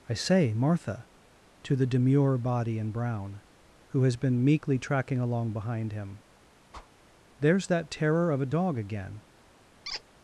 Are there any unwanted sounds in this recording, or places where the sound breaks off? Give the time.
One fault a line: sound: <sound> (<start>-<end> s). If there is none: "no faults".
sound: whoosh (6.7-6.9 s)
sound: squeak (9.8-10.0 s)